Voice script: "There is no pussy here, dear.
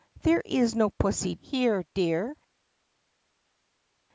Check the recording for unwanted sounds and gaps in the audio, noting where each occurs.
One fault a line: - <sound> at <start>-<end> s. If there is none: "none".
none